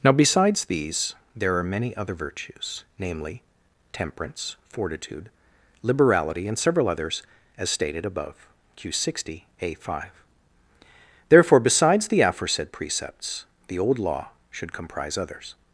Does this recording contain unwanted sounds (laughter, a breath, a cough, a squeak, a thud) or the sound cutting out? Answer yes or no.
no